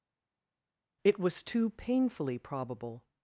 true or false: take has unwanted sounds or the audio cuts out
false